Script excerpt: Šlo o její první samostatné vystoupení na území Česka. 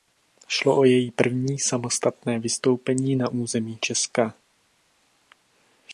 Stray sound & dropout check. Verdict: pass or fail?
pass